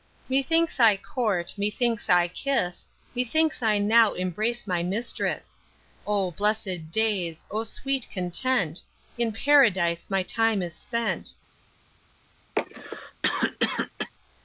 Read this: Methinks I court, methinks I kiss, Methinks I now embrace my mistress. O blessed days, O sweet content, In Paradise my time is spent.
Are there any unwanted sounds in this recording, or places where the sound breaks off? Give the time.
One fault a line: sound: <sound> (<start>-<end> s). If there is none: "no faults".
sound: cough (12.6-14.1 s)